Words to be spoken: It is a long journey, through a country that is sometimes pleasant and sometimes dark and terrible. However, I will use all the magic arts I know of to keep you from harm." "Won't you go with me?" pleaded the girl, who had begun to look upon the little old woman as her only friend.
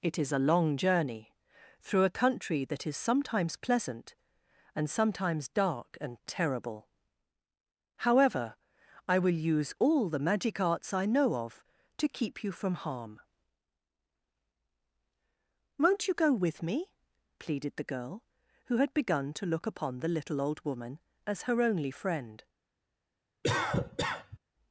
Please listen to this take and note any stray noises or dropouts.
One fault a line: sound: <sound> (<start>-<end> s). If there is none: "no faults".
sound: cough (23.4-24.4 s)